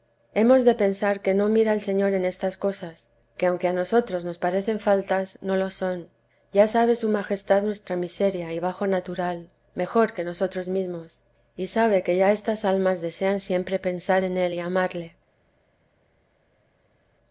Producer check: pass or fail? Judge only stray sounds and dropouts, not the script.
pass